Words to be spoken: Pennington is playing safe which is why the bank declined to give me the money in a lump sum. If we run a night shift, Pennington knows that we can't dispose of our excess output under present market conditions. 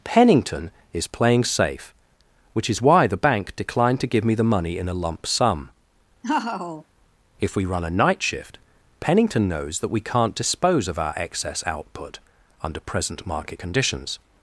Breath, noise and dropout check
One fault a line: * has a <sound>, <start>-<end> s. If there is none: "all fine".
* has a laugh, 6.2-6.8 s